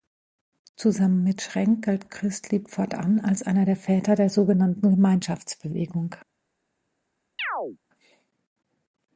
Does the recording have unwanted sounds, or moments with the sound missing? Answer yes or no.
yes